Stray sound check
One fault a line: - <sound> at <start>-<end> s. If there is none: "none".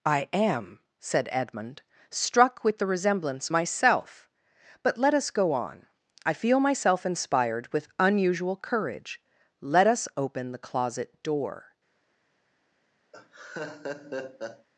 - laugh at 13.1-14.7 s